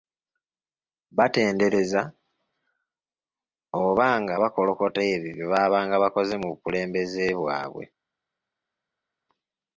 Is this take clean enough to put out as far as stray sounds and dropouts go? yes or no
yes